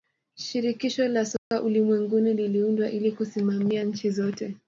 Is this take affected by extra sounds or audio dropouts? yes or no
yes